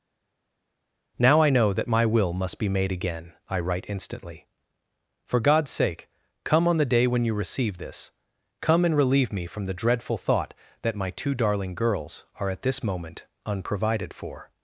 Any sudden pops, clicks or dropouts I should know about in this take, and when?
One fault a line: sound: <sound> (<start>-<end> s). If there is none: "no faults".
no faults